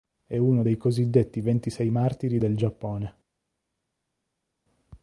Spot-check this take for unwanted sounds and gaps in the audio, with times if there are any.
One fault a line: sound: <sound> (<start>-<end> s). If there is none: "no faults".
no faults